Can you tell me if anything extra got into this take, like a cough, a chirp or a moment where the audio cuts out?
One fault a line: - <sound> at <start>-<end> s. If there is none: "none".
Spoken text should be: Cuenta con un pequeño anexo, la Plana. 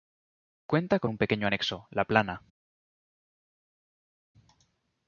none